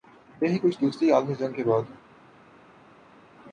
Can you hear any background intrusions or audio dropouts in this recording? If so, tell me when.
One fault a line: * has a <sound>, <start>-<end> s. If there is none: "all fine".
all fine